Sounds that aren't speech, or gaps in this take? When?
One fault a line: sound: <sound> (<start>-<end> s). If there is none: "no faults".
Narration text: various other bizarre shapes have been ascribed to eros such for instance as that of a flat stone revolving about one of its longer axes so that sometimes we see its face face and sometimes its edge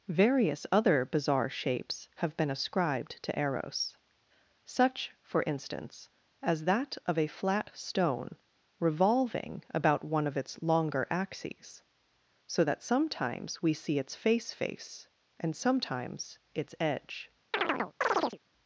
sound: chirp (17.5-18.4 s)